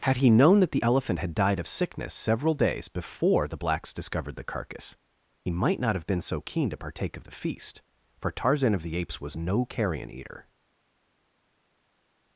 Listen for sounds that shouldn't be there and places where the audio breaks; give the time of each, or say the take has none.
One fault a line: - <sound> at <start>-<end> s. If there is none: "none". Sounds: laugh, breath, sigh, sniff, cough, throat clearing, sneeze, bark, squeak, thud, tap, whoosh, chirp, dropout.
none